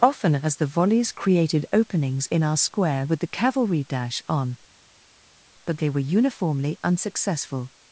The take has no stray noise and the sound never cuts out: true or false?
true